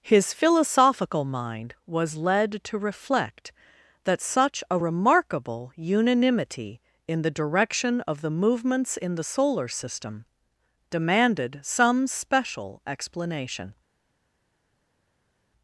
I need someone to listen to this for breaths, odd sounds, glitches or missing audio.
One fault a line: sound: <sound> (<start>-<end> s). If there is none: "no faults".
no faults